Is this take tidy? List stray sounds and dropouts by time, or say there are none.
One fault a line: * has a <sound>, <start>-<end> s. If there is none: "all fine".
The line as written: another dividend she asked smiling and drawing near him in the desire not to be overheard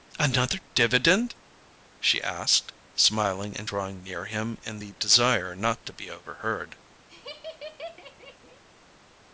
* has a laugh, 7.1-8.6 s